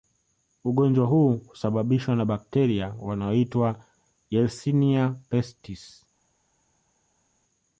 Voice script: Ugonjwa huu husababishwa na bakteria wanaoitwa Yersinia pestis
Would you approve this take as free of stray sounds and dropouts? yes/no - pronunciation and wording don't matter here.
yes